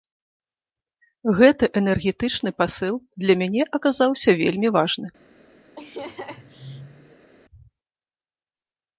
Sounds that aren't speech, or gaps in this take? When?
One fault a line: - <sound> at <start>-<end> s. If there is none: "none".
- laugh at 5.8-7.3 s